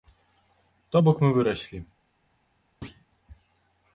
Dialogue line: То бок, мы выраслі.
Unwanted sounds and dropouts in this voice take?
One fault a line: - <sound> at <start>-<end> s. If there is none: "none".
- thud at 2.8-3.1 s